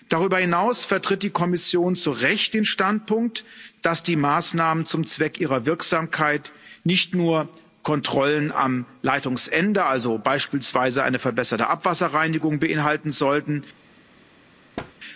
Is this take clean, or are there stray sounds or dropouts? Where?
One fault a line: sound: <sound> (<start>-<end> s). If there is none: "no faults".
sound: thud (14.8-14.9 s)